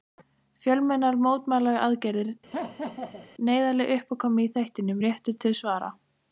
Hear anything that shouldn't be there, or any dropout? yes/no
yes